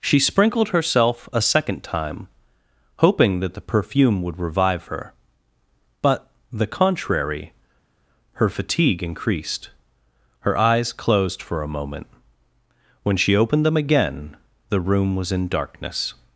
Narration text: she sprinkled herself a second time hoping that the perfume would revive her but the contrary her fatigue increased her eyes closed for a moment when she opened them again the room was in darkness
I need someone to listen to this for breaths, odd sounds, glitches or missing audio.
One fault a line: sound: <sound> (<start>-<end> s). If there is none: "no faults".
no faults